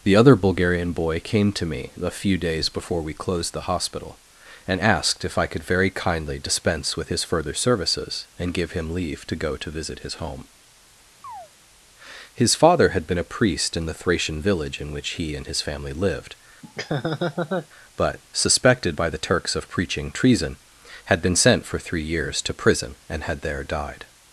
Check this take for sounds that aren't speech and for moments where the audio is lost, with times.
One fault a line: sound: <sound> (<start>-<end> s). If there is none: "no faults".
sound: chirp (11.2-11.5 s)
sound: laugh (16.6-17.7 s)